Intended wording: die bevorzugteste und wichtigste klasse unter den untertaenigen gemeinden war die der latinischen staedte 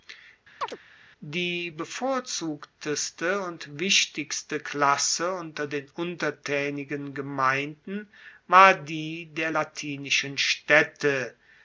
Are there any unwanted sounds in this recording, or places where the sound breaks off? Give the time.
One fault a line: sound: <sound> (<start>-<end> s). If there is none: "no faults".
sound: chirp (0.6-0.8 s)